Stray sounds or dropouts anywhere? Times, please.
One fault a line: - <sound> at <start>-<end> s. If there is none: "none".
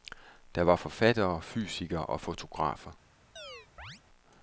- chirp at 3.4-4.0 s